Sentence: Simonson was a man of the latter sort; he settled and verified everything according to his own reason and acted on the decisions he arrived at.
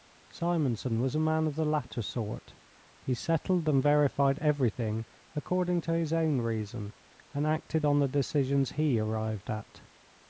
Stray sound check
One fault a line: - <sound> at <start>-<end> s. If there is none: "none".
none